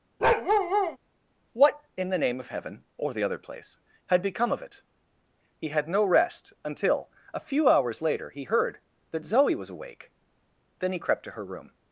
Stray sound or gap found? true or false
true